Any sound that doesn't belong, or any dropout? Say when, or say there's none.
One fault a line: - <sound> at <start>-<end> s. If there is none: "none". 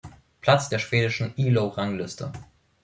none